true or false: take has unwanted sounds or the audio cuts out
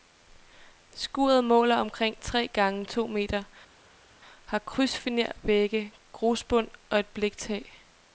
false